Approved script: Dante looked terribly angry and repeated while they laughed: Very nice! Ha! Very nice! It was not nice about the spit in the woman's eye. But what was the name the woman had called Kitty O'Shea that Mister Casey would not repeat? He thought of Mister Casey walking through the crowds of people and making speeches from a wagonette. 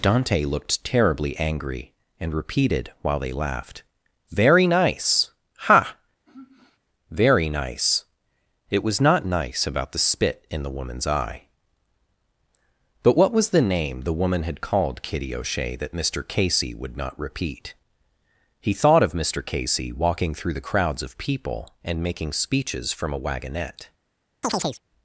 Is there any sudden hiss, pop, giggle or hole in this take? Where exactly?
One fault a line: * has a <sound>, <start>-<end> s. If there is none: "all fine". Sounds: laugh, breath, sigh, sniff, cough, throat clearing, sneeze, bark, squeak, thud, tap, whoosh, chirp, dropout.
* has a sigh, 6.3-6.8 s
* has a chirp, 24.4-24.8 s